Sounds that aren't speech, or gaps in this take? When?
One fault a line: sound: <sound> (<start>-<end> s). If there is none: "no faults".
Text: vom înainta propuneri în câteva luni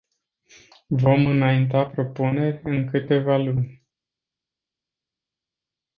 no faults